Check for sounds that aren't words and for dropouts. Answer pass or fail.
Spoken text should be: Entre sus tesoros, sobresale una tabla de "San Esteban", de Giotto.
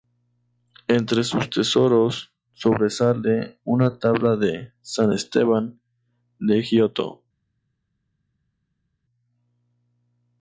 pass